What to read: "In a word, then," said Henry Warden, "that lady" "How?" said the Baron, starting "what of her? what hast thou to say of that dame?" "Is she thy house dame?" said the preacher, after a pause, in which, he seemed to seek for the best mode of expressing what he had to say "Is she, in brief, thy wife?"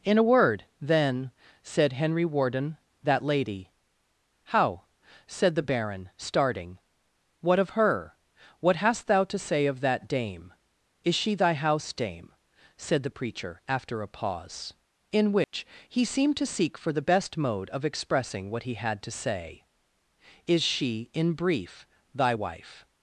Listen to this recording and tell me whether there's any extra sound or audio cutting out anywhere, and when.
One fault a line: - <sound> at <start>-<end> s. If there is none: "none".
- dropout at 15.4-15.5 s